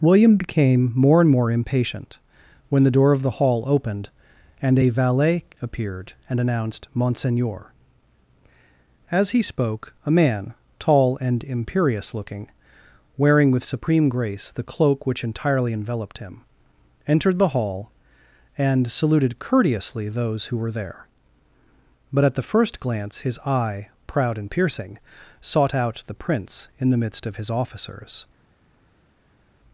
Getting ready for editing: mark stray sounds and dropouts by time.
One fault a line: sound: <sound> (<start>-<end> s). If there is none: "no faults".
no faults